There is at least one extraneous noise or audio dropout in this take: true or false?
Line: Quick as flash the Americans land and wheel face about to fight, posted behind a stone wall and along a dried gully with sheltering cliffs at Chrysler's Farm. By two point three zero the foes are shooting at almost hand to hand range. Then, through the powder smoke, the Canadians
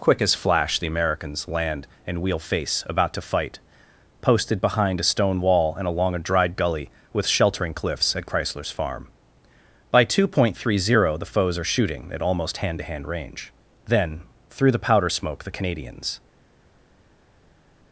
false